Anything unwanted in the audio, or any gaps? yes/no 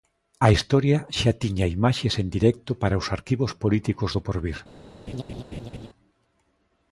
yes